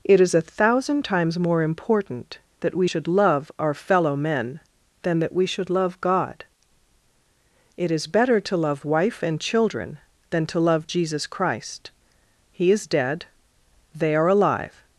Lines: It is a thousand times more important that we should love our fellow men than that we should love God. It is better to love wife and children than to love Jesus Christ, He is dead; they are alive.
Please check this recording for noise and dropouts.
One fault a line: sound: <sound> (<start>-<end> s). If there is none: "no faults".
no faults